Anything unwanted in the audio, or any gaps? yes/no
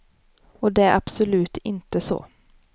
no